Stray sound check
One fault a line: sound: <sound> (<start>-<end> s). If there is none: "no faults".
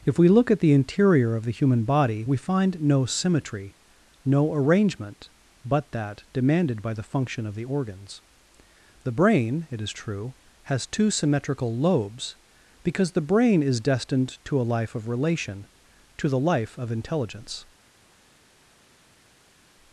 no faults